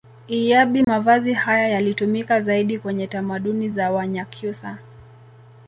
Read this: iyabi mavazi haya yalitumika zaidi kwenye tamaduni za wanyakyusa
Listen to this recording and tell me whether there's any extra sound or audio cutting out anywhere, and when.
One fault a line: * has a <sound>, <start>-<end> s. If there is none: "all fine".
* has a dropout, 0.8-0.9 s